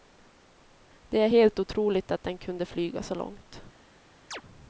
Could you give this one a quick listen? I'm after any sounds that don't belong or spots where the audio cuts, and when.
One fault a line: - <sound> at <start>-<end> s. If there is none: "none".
- chirp at 4.3-4.4 s